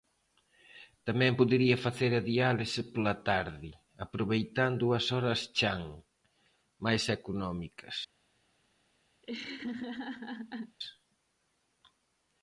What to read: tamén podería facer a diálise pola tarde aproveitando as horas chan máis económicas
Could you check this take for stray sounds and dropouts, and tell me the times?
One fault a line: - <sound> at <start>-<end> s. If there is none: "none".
- laugh at 9.2-10.8 s